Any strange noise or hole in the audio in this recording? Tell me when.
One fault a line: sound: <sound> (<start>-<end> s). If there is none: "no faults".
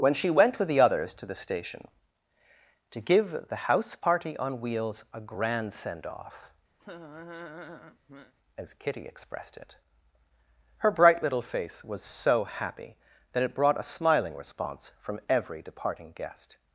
sound: laugh (6.8-8.3 s)